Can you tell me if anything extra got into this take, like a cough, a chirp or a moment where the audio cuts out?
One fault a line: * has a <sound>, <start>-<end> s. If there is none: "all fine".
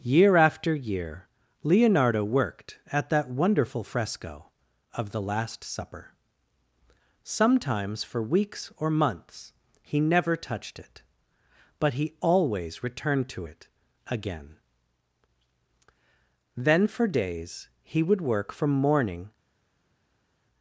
all fine